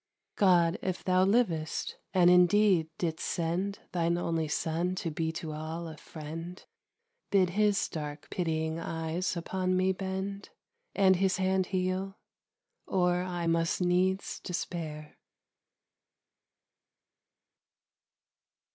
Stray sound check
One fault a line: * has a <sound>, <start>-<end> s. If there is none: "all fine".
all fine